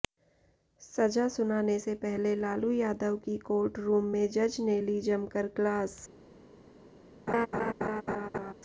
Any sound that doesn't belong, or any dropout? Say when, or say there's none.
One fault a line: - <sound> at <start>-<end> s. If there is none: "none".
- laugh at 7.3-8.5 s